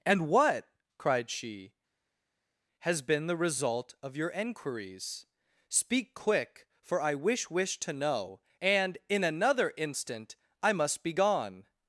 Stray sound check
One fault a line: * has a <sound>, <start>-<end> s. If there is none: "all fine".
all fine